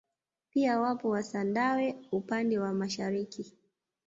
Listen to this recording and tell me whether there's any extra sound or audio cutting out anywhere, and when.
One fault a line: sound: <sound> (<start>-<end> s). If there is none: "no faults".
no faults